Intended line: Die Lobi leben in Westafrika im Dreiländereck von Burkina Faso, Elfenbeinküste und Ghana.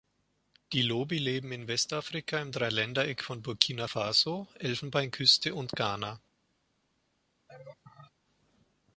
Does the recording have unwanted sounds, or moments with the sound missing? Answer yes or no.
yes